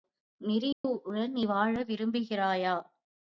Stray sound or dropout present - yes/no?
yes